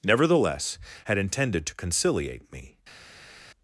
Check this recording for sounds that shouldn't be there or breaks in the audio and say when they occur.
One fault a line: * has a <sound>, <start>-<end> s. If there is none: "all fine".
all fine